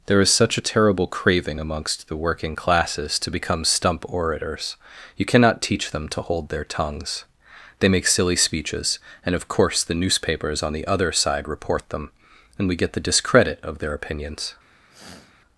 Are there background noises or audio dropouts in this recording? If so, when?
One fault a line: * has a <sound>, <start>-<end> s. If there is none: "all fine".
* has a sniff, 14.9-15.3 s